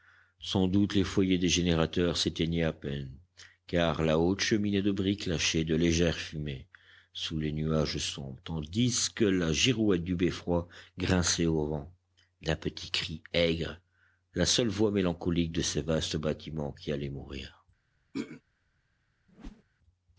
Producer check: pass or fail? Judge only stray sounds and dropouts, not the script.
fail